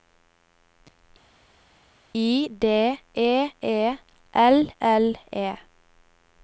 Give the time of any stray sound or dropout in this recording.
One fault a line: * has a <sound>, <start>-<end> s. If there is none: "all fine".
all fine